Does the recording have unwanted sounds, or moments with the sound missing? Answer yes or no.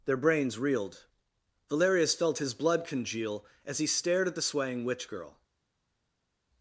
no